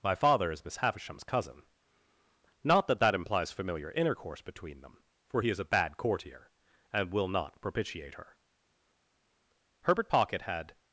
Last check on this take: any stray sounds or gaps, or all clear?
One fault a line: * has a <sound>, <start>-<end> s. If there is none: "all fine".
all fine